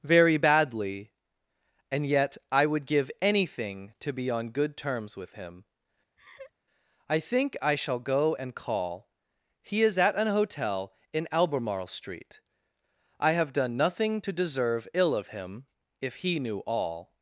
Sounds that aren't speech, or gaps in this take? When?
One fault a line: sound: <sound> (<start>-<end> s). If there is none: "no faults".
sound: laugh (6.2-6.5 s)